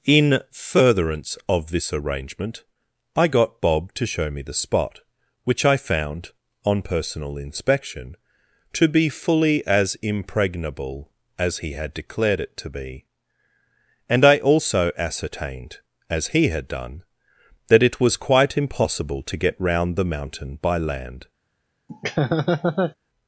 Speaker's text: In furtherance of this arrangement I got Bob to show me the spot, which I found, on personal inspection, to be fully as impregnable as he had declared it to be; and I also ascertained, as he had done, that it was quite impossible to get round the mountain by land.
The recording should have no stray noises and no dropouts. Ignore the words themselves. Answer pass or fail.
fail